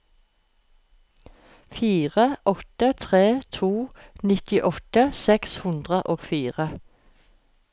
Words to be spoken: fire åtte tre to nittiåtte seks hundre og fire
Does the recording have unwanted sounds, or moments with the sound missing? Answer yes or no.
no